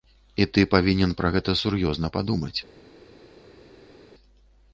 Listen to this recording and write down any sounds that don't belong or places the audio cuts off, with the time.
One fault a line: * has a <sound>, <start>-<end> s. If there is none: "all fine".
all fine